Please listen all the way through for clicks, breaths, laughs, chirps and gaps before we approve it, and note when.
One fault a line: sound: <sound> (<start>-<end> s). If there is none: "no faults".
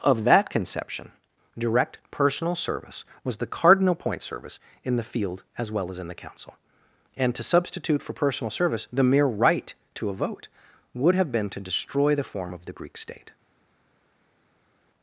no faults